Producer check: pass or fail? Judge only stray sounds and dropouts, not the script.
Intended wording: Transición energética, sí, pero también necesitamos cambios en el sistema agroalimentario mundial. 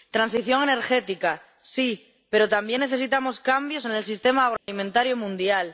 fail